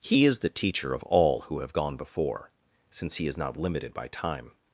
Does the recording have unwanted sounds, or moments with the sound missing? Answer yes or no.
no